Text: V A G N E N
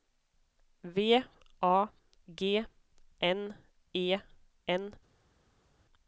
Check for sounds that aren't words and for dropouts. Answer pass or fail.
pass